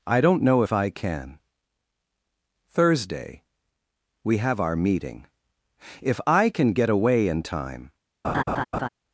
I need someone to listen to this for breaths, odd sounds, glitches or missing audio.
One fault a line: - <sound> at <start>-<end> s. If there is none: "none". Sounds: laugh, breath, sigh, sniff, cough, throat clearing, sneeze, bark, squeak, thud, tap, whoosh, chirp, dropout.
- laugh at 8.2-8.9 s